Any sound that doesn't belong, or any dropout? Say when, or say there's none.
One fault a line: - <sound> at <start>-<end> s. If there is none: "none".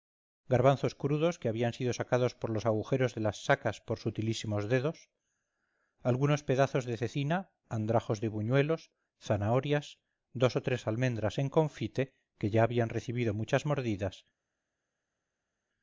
none